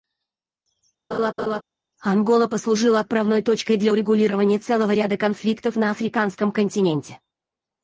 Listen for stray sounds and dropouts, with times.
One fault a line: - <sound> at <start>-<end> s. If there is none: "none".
- laugh at 1.1-1.6 s